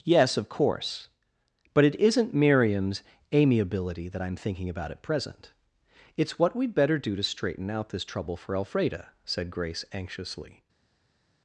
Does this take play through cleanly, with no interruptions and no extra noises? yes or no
yes